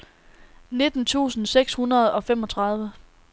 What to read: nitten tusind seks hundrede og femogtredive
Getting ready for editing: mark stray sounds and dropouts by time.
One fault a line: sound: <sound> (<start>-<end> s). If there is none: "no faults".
no faults